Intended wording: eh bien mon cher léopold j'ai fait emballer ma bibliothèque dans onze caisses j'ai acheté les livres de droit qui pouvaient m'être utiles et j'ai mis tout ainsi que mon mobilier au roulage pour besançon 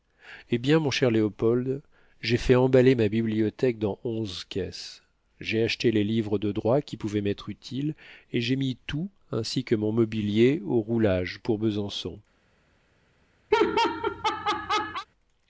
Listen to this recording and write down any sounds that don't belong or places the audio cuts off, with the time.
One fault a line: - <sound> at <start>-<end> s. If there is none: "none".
- laugh at 13.5-15.1 s